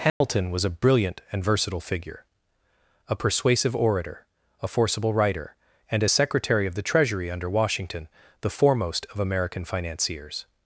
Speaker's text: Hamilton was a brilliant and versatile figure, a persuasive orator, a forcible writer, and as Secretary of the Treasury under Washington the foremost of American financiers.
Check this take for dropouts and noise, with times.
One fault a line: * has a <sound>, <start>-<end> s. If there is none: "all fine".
* has a dropout, 0.1-0.2 s